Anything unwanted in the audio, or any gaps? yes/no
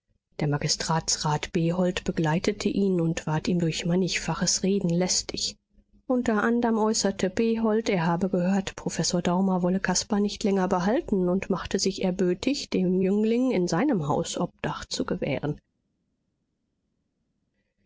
no